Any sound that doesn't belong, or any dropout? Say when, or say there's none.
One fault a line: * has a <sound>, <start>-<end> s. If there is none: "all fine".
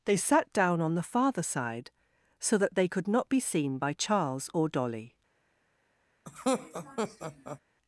* has a laugh, 6.3-7.6 s